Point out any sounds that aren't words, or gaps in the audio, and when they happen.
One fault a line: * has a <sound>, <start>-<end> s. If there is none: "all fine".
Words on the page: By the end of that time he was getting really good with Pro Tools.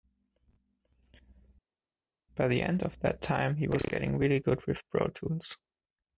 all fine